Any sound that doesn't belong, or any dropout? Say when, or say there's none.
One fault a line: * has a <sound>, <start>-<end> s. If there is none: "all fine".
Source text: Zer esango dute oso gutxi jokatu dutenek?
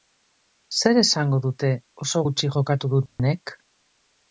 * has a dropout, 3.1-3.2 s